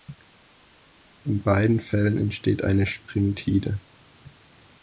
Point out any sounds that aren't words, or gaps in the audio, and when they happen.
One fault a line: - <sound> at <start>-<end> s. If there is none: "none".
none